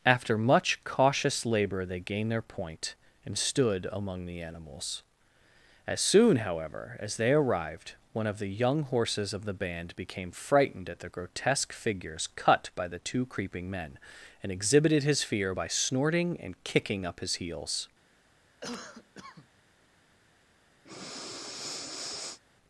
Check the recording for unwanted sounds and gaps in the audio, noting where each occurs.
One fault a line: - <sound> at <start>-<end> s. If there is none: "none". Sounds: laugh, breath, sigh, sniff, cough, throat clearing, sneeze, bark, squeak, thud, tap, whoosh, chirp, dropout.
- cough at 18.6-19.5 s
- breath at 20.8-22.4 s